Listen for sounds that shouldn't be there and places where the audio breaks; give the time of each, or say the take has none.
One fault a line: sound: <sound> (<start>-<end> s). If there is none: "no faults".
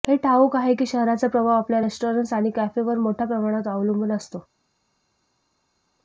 no faults